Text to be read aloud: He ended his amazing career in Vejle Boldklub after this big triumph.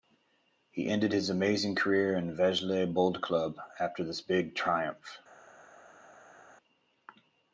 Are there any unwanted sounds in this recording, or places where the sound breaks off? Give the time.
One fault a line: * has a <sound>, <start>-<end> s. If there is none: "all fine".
all fine